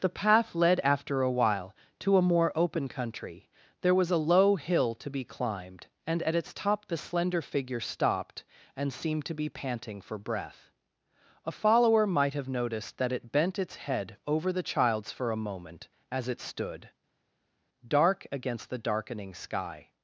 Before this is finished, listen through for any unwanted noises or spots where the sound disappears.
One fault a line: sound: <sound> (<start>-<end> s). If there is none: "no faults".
no faults